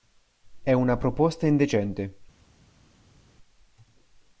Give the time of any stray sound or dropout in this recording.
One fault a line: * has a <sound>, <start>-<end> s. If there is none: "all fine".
all fine